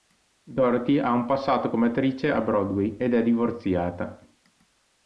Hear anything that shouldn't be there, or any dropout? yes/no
no